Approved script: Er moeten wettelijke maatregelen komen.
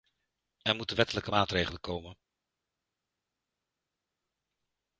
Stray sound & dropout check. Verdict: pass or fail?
pass